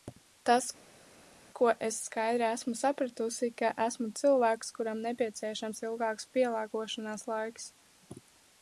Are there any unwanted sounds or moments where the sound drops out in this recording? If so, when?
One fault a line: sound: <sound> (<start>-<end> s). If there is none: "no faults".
no faults